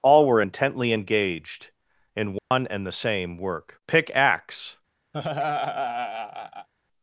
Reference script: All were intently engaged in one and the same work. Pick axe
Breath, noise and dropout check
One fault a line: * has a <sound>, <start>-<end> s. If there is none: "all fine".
* has a dropout, 2.4-2.5 s
* has a laugh, 5.1-6.7 s